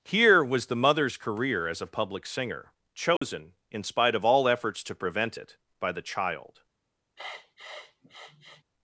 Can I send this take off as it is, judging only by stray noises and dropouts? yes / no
no